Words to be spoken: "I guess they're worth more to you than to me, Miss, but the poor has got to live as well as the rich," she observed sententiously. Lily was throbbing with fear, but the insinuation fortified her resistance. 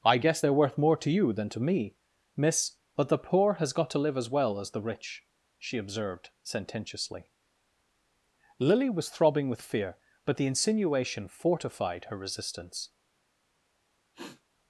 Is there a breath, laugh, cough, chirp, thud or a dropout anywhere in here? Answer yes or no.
yes